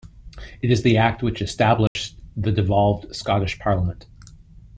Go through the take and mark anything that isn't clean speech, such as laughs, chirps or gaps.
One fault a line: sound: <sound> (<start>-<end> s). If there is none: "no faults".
sound: dropout (1.9-2.0 s)